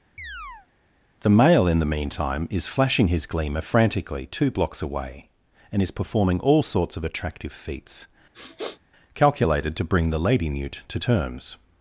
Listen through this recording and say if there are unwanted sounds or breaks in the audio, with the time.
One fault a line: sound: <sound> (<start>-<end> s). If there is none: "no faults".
sound: chirp (0.2-0.7 s)
sound: sniff (8.3-8.8 s)